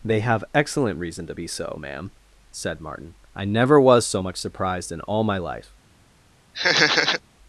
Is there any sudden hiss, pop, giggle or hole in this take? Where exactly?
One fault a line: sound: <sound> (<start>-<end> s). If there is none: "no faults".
sound: laugh (6.5-7.2 s)